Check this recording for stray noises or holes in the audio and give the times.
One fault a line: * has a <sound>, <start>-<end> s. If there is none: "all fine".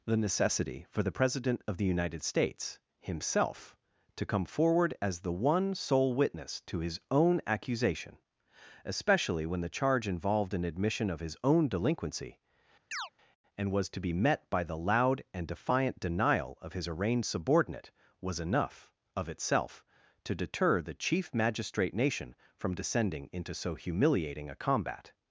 * has a chirp, 12.9-13.1 s